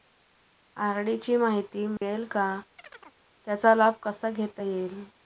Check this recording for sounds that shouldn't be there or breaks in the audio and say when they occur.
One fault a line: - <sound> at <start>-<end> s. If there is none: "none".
- dropout at 2.0-2.0 s
- chirp at 2.8-3.2 s